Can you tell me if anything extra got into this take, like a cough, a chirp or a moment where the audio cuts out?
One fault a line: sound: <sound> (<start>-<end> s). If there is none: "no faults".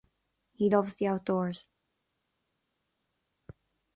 no faults